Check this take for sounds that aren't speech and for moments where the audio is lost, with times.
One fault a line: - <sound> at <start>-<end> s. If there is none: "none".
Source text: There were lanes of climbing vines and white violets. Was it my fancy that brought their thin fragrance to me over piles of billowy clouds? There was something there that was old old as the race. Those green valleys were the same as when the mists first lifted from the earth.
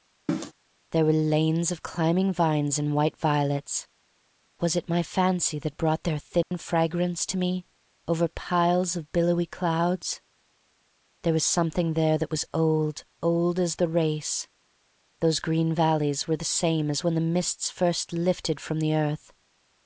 - cough at 0.3-0.5 s
- dropout at 6.4-6.5 s